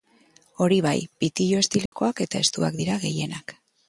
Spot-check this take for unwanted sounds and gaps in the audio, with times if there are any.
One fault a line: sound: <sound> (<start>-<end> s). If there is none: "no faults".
sound: dropout (1.9-1.9 s)